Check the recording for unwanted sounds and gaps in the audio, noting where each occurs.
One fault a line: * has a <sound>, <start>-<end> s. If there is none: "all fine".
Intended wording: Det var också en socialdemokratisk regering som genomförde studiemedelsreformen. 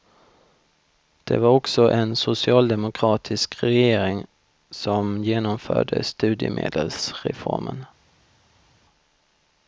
all fine